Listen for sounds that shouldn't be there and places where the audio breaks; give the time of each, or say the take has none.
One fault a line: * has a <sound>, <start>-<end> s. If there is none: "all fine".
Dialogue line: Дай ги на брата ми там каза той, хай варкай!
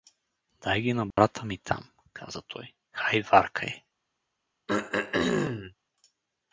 * has a dropout, 1.1-1.2 s
* has a throat clearing, 4.7-5.7 s